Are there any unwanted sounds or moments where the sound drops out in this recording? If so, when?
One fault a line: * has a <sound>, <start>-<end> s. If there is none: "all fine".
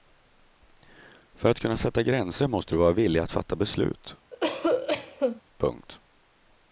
* has a cough, 4.3-5.4 s